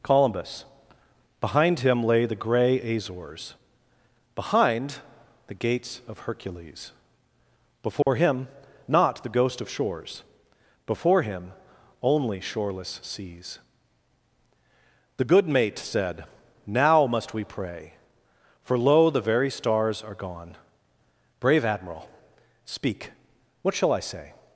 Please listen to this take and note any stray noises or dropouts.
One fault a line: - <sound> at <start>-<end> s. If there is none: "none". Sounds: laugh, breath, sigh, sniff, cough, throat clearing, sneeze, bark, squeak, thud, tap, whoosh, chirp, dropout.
- dropout at 8.0-8.1 s